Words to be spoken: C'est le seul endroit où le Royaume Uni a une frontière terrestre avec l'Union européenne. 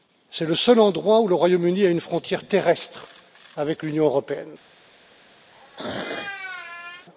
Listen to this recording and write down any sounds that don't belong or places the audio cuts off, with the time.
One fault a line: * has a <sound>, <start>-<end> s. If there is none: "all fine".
* has a throat clearing, 5.5-7.1 s